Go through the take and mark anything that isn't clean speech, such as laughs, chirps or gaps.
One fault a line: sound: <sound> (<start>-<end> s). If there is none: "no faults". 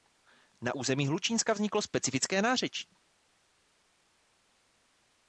no faults